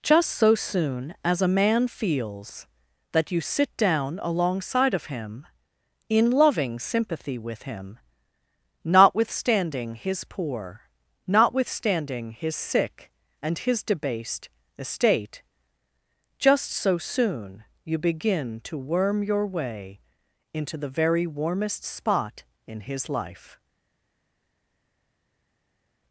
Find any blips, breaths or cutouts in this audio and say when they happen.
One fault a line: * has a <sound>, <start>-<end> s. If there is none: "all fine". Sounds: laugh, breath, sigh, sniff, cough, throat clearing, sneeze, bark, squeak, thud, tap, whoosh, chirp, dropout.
all fine